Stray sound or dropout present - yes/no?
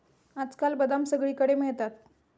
no